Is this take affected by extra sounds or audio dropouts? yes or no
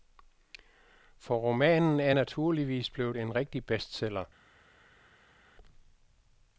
no